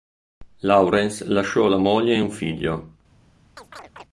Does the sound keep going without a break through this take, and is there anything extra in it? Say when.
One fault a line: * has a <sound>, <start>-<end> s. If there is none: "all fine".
* has a chirp, 3.6-4.0 s